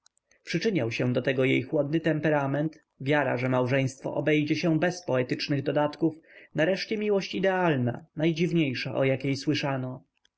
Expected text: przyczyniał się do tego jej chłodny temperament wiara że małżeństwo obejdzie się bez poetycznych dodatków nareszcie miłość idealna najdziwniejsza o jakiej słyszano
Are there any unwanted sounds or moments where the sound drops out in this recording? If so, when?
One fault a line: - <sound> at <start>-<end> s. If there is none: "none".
none